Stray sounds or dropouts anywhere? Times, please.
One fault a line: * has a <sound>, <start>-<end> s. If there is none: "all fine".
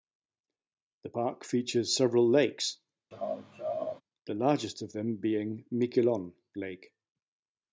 * has a laugh, 3.1-4.0 s